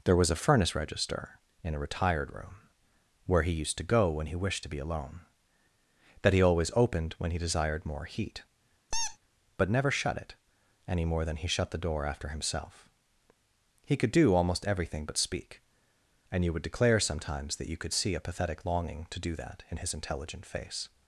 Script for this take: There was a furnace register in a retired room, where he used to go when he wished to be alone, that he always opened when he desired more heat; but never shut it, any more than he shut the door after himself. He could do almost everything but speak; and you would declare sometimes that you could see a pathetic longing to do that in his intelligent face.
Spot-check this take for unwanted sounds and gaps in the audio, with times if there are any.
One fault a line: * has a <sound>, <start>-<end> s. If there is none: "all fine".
* has a squeak, 8.9-9.2 s